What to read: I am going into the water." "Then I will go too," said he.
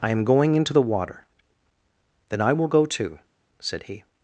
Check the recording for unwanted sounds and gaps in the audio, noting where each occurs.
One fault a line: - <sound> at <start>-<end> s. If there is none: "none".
none